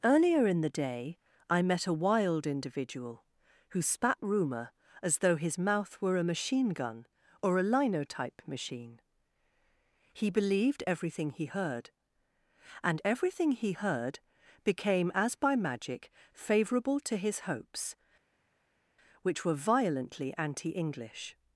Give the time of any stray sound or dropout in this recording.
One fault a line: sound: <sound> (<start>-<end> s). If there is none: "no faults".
no faults